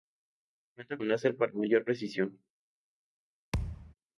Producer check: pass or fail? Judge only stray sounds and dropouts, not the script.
fail